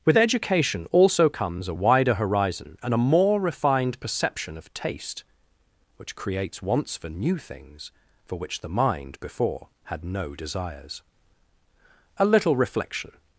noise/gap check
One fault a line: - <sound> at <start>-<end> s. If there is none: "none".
none